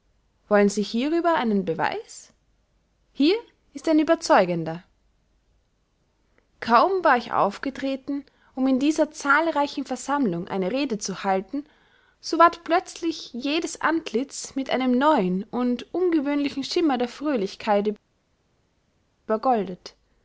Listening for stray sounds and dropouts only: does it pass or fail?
pass